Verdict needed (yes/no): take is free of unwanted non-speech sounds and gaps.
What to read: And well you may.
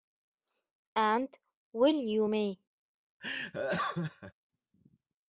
no